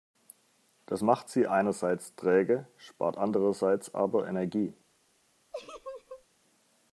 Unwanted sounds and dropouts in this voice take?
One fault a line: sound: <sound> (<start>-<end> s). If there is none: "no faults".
sound: laugh (5.5-6.2 s)